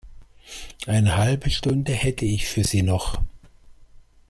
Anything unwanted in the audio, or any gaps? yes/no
no